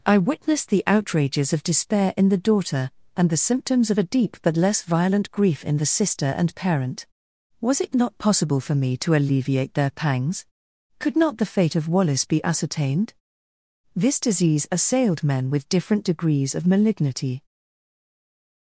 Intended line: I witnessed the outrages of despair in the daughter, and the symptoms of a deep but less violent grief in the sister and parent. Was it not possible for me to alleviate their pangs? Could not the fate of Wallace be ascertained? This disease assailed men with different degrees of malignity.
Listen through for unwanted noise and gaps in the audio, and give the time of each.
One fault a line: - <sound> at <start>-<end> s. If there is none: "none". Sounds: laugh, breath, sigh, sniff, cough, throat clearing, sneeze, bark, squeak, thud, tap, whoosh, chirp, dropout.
none